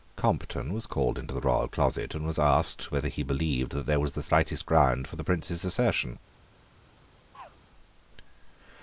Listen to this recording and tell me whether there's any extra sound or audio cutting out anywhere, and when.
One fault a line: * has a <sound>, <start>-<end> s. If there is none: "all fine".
* has a throat clearing, 7.3-7.6 s